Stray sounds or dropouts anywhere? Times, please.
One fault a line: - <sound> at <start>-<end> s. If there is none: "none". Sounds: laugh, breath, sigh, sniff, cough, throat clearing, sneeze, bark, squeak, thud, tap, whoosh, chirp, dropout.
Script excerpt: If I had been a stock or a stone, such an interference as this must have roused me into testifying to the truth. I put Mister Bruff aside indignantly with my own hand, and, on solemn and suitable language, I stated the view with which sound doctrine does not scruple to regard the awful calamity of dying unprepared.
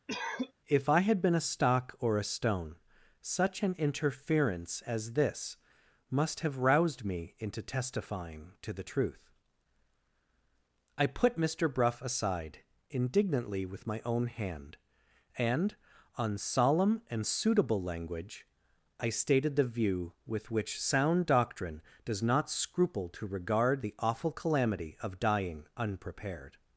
- cough at 0.1-0.5 s